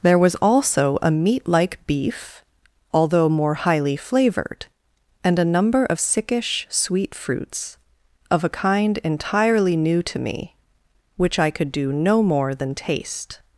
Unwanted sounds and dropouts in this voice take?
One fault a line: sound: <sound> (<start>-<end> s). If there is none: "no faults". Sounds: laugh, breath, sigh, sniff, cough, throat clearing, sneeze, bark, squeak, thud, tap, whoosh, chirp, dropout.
no faults